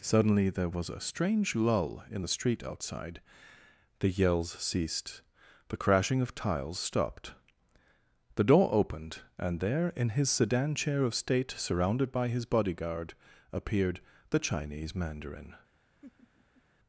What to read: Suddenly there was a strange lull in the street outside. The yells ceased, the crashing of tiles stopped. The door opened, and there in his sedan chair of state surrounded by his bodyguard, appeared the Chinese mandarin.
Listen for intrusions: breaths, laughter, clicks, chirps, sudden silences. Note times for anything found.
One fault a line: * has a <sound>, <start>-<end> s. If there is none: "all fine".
* has a laugh, 16.0-16.6 s